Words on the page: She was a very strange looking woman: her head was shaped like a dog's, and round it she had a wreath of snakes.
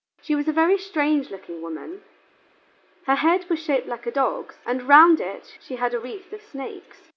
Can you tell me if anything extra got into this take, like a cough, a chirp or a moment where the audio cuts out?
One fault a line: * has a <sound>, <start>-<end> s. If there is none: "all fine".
all fine